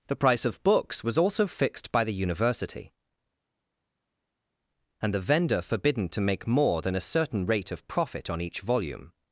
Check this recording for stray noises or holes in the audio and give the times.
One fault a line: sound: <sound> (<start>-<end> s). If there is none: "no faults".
no faults